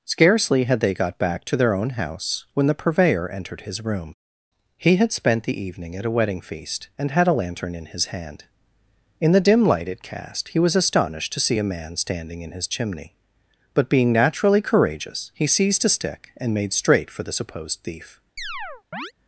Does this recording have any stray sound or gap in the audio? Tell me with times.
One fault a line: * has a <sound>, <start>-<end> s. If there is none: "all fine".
* has a chirp, 18.4-19.1 s